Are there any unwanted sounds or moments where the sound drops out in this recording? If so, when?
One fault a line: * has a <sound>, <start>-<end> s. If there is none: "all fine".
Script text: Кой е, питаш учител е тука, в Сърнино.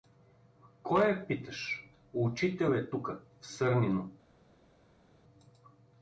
all fine